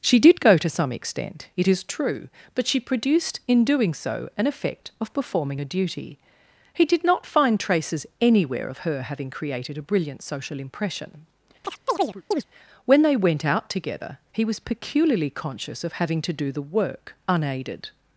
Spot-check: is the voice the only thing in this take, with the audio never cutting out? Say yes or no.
no